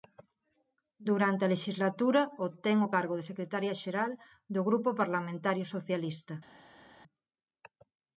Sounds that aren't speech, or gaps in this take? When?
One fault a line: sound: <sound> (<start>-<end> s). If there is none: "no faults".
no faults